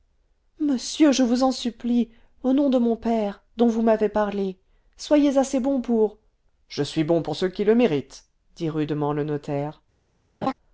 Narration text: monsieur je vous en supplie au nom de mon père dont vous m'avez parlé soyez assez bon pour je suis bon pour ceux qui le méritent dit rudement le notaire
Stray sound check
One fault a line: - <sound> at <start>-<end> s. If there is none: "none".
- laugh at 10.4-10.5 s